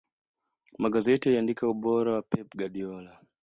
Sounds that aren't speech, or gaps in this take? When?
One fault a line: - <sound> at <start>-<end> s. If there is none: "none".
none